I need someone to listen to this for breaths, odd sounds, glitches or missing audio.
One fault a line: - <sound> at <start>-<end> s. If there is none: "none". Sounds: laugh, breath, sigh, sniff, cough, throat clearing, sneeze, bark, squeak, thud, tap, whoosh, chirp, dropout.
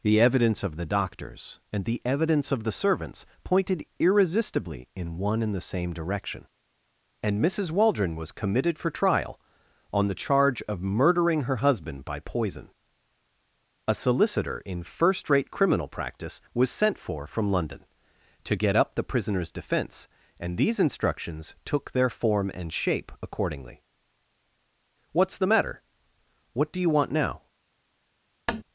- tap at 28.5-28.6 s